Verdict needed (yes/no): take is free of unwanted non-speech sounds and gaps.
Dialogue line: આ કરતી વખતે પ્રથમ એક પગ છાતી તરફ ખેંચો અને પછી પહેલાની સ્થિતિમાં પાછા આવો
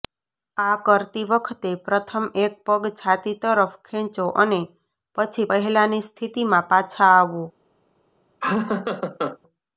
no